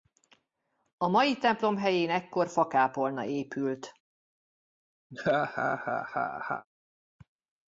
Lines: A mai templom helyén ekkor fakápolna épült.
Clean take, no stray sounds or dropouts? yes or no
no